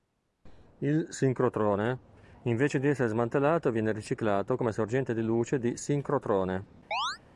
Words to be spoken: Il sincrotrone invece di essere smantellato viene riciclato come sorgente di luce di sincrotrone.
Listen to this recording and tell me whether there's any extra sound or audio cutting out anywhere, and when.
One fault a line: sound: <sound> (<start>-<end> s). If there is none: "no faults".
sound: chirp (6.9-7.2 s)